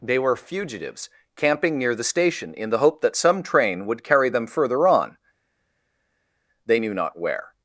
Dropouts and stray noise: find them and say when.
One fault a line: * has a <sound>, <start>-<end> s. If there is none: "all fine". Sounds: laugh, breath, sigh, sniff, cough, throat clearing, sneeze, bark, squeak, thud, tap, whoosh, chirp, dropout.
all fine